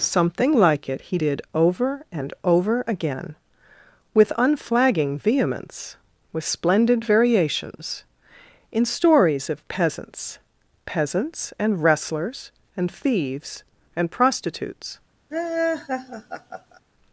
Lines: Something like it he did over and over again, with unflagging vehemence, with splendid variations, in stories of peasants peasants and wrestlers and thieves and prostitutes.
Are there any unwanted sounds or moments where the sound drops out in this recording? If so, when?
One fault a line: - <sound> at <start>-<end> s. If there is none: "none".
- laugh at 15.3-16.8 s